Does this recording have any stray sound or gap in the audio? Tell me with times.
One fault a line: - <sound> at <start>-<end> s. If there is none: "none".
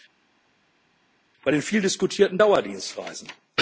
none